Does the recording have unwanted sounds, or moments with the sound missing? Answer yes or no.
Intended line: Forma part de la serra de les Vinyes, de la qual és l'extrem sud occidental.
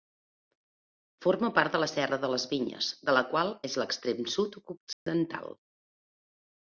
yes